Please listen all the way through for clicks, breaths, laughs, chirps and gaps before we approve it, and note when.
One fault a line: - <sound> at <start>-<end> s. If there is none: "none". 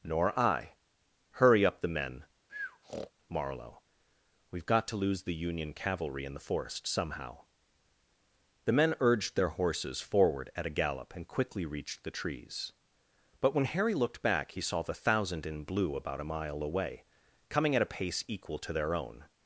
- breath at 2.5-3.1 s